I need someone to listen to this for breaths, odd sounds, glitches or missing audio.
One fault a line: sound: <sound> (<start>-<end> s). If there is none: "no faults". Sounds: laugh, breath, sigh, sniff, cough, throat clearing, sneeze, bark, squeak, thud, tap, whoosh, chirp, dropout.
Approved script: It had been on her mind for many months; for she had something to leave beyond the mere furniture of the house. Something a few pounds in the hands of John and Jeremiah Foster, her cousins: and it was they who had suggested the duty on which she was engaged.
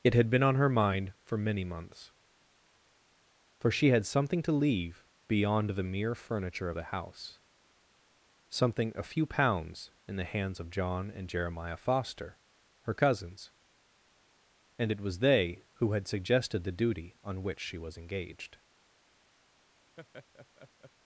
sound: laugh (20.0-20.9 s)